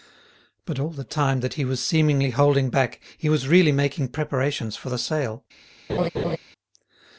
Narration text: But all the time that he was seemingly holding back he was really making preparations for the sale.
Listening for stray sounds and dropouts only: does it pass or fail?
fail